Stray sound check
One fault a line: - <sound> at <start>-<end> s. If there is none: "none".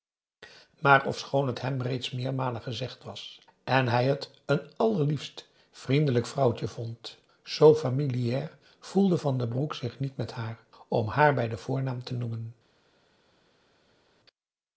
none